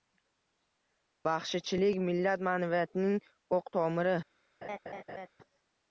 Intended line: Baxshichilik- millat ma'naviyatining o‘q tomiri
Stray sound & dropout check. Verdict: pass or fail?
fail